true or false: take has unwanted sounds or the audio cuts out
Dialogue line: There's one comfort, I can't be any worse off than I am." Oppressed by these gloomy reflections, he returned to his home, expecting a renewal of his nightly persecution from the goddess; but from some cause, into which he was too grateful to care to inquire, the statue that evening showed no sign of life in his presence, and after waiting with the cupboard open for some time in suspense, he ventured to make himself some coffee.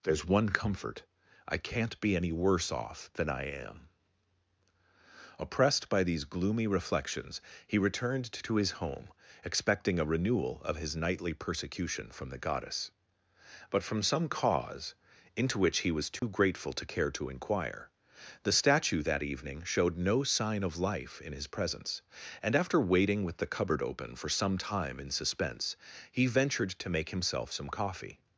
true